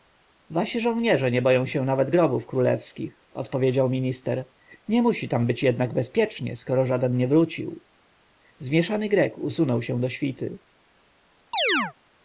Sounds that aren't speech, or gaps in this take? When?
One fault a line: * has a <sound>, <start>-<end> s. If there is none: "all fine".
* has a chirp, 11.5-11.9 s